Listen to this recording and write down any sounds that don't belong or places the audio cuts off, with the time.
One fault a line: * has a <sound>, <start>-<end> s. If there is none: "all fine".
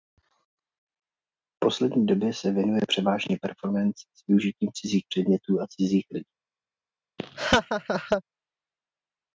* has a laugh, 7.2-8.2 s